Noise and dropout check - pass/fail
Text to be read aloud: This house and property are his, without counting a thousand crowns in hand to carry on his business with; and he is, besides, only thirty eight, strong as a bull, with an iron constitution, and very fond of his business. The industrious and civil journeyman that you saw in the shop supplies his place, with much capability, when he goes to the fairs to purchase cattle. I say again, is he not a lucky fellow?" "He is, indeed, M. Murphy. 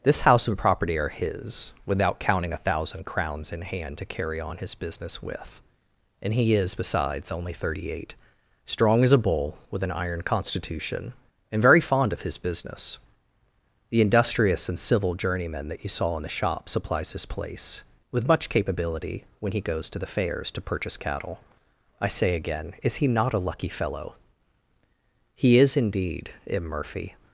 pass